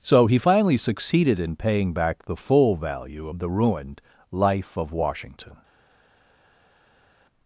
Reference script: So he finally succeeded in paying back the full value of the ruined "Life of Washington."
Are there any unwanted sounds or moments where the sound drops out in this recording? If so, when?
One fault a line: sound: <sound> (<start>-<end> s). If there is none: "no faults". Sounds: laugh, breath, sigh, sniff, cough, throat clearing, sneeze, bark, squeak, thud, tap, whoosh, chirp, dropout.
no faults